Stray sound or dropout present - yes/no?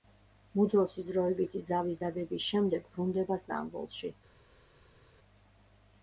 no